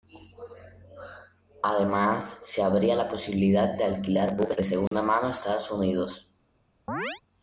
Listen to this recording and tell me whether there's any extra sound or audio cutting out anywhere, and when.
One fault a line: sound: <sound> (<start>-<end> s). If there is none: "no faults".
sound: dropout (4.9-4.9 s)
sound: chirp (6.9-7.2 s)